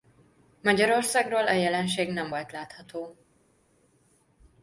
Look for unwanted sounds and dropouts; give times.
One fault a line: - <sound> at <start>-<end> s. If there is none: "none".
none